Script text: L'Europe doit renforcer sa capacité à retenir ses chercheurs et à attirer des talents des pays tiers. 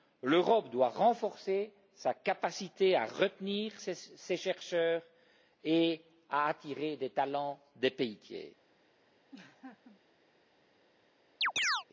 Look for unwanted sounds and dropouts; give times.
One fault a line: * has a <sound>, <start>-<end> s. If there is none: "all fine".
* has a laugh, 9.3-10.0 s
* has a chirp, 11.4-11.8 s